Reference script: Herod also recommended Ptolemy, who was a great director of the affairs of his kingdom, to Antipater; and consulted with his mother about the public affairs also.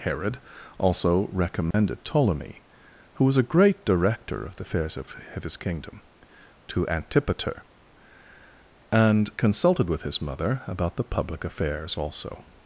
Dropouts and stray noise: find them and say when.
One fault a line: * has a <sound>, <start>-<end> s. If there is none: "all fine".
* has a dropout, 1.7-1.7 s